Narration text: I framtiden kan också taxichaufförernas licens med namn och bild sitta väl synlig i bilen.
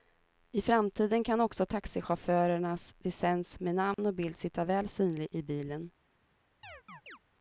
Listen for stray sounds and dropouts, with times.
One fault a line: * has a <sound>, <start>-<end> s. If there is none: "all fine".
* has a dropout, 3.9-4.0 s
* has a chirp, 6.6-7.2 s